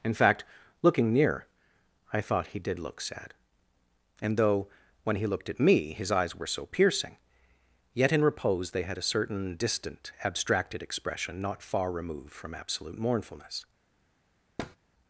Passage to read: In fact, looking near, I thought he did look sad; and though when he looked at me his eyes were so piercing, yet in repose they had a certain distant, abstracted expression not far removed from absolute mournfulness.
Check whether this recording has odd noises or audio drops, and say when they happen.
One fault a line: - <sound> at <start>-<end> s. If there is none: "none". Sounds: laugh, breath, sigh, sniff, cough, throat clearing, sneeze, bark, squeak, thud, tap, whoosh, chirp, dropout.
- thud at 14.6-14.8 s